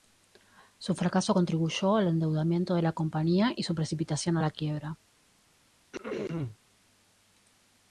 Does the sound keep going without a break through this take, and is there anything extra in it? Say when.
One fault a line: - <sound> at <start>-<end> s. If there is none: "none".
- throat clearing at 5.9-6.6 s